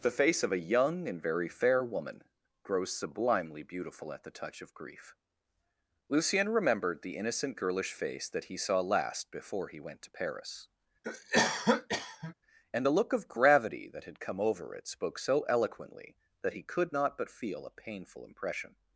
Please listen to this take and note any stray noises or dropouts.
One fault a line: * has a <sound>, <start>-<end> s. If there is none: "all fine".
* has a cough, 11.0-12.3 s